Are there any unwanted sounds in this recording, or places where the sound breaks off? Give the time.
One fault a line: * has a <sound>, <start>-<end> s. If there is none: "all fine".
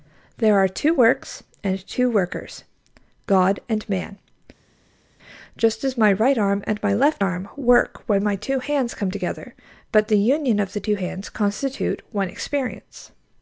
all fine